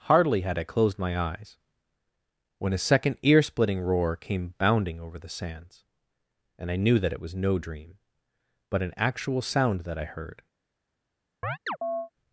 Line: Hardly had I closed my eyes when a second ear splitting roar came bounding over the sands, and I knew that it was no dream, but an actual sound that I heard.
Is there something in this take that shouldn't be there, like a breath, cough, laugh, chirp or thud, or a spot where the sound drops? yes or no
yes